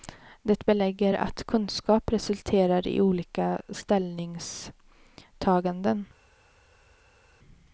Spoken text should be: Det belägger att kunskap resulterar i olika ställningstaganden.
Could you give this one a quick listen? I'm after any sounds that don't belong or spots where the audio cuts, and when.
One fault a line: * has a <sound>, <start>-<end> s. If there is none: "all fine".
all fine